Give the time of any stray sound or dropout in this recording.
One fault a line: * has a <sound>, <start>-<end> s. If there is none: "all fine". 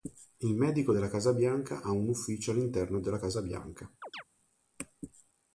* has a chirp, 4.0-4.2 s